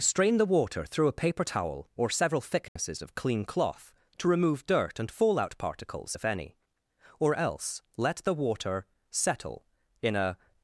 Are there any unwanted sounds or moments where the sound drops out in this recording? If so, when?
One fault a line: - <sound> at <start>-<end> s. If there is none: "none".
- dropout at 2.7-2.8 s